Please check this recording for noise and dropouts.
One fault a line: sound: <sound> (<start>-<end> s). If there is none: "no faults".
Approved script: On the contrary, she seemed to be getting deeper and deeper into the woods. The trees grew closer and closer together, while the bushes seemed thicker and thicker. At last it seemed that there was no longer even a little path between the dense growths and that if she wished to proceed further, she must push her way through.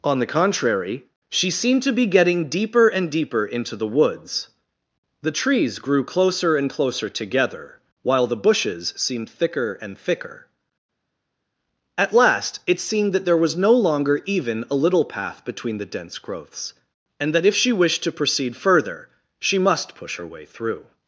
no faults